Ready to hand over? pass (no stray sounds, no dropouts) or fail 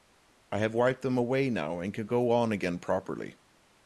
pass